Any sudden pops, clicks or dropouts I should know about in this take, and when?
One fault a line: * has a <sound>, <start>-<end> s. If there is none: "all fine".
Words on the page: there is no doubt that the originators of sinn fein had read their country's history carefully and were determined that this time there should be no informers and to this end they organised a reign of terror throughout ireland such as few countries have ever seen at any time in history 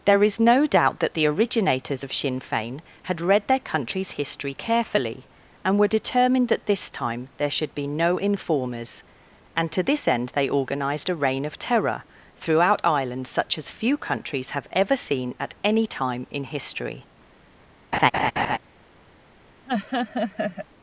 * has a laugh, 17.9-18.6 s
* has a laugh, 19.7-20.7 s